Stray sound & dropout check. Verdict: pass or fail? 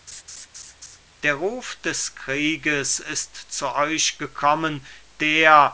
fail